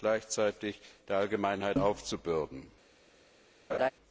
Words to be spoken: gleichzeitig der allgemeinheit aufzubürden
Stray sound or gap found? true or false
true